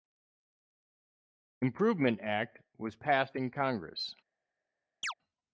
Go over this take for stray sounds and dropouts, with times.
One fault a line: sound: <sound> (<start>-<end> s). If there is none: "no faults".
sound: chirp (5.0-5.1 s)